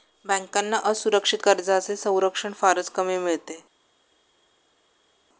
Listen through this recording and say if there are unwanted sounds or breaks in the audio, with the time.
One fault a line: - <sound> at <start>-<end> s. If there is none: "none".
none